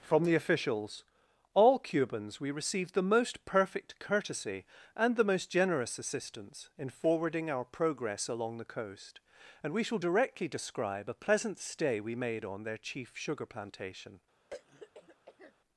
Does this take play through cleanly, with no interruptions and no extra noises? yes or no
no